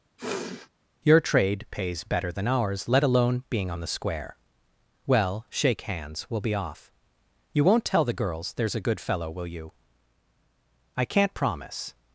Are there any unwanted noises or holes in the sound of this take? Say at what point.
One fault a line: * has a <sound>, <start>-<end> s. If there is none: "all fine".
* has a sniff, 0.2-0.7 s